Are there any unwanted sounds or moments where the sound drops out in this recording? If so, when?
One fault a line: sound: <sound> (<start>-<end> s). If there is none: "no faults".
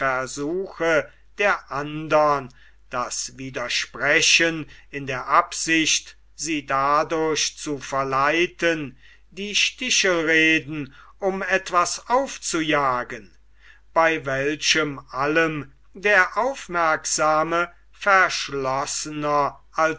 no faults